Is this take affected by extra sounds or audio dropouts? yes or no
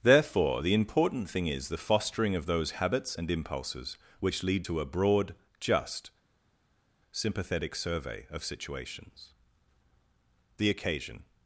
no